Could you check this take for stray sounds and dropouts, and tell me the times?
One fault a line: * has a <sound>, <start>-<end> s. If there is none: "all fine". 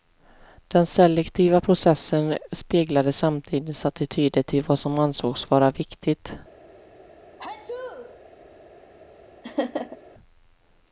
* has a sneeze, 7.4-8.2 s
* has a laugh, 9.4-10.0 s